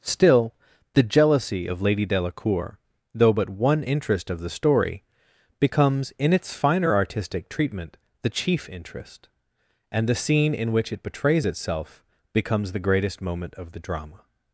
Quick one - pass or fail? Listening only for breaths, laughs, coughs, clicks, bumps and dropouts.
pass